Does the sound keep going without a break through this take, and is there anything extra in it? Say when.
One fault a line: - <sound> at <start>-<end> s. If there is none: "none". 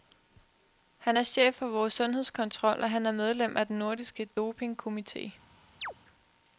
- chirp at 5.8-5.9 s